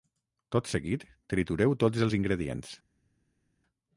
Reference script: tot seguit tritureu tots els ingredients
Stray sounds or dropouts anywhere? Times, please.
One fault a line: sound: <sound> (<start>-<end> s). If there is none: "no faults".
no faults